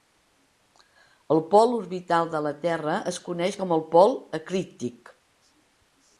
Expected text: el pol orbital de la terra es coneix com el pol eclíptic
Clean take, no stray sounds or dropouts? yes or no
yes